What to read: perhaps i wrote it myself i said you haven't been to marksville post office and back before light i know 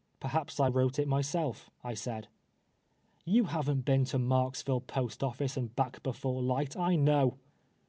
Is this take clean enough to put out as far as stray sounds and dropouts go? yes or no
yes